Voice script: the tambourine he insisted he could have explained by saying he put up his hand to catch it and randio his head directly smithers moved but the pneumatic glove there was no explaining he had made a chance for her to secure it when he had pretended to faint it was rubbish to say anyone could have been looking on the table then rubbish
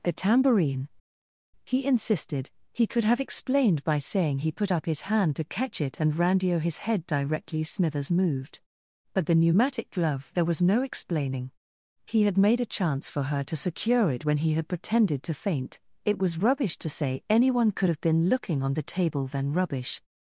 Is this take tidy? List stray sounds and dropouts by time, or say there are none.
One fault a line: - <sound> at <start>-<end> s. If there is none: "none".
none